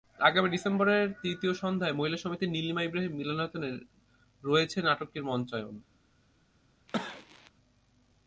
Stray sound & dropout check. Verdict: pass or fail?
fail